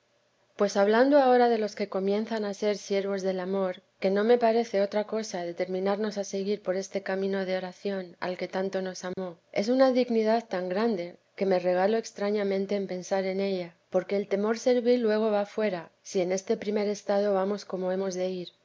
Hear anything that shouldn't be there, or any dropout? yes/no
yes